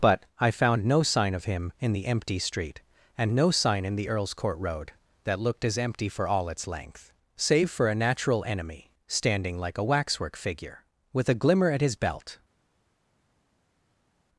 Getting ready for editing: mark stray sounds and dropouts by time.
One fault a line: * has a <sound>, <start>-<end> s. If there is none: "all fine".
all fine